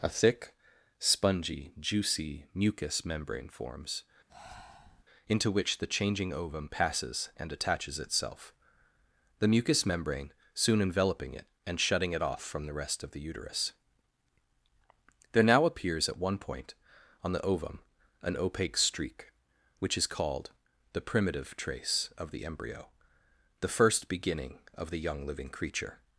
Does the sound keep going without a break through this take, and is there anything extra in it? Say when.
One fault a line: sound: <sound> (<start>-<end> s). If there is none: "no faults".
sound: breath (4.3-5.0 s)